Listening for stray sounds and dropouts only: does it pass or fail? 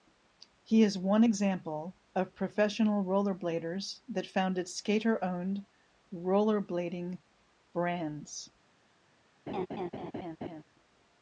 fail